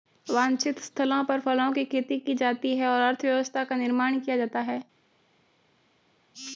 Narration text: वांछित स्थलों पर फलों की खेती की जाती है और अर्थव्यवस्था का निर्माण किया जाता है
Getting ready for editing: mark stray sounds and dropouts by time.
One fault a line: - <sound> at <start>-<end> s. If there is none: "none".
none